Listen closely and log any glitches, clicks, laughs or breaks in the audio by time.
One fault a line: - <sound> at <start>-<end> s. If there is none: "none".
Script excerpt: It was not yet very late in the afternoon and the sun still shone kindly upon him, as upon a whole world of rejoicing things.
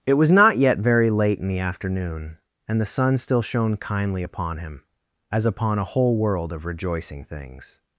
none